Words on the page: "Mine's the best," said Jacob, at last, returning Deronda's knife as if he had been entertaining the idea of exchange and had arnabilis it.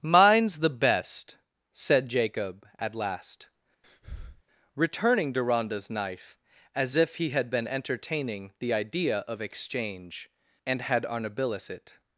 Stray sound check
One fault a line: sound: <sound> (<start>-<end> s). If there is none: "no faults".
sound: breath (3.8-4.4 s)